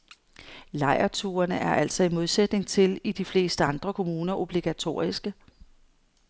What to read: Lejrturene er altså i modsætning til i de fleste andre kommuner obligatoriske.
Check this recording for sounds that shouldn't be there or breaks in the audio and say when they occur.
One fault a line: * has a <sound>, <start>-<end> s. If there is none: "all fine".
all fine